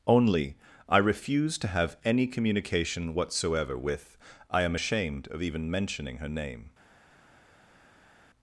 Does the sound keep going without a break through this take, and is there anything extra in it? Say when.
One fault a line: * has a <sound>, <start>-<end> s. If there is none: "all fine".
all fine